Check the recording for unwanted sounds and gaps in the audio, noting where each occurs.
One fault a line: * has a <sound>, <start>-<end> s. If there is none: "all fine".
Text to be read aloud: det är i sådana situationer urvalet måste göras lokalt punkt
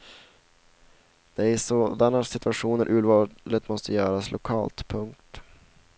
all fine